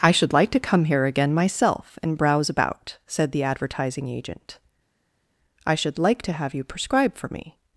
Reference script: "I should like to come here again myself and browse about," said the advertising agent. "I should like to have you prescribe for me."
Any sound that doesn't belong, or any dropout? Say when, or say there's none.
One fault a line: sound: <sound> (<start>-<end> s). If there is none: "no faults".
no faults